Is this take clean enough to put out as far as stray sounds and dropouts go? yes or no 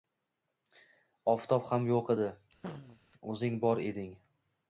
no